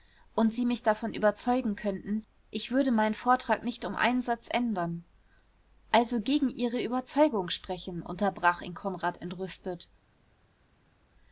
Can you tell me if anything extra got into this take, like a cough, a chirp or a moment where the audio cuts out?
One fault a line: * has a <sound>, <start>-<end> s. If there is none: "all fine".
all fine